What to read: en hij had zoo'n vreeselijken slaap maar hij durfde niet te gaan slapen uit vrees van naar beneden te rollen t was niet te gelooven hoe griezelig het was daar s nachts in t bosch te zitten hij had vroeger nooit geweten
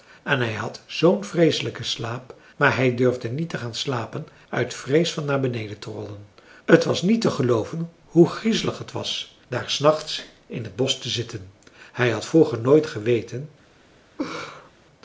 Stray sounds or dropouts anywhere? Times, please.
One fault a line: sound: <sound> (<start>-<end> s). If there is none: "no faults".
sound: laugh (14.2-14.7 s)